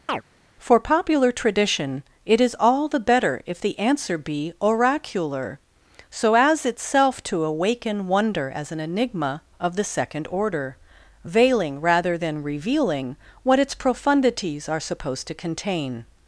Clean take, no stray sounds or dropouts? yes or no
no